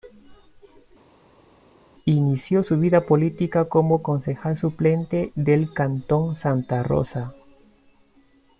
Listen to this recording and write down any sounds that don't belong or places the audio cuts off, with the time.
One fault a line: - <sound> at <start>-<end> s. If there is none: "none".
none